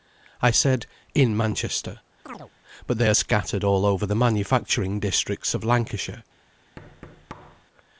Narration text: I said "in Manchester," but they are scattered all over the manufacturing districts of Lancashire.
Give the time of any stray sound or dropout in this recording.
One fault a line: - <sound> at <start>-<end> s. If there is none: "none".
- chirp at 2.2-2.5 s
- thud at 6.8-7.6 s